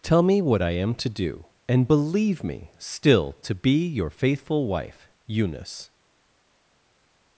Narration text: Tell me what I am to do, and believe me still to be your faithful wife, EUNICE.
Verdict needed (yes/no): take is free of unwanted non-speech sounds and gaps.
yes